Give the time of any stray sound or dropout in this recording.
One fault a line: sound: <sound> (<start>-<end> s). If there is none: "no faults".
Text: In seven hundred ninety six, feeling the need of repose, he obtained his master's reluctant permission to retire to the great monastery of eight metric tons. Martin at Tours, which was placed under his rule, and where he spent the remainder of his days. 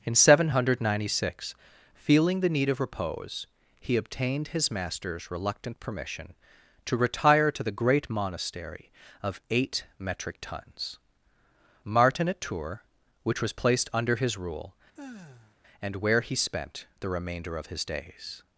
sound: sigh (15.0-15.6 s)